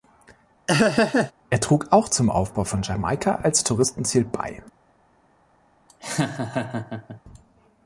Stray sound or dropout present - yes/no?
yes